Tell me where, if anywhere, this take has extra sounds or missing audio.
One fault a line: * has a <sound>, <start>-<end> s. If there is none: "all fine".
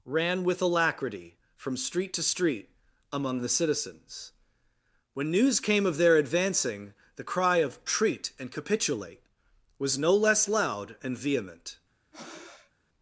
* has a breath, 12.1-12.7 s